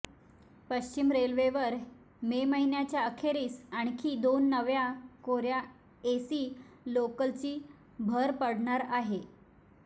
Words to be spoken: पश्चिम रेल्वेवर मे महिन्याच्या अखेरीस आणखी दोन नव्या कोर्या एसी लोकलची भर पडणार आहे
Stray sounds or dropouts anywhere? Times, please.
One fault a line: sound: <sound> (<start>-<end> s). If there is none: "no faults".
no faults